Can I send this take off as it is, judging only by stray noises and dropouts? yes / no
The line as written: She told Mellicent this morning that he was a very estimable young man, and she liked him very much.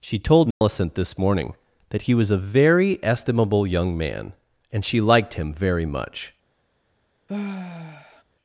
no